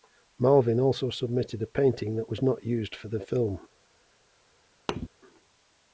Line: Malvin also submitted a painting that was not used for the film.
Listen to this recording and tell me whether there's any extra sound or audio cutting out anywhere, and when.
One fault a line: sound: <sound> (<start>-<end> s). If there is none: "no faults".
sound: thud (4.9-5.1 s)